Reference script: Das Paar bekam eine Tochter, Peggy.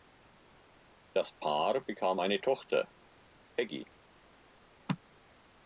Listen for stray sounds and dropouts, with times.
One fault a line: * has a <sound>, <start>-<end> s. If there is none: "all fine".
all fine